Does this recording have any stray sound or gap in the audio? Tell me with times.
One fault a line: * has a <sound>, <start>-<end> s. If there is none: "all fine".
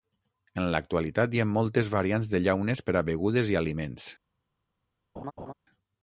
* has a laugh, 5.2-5.5 s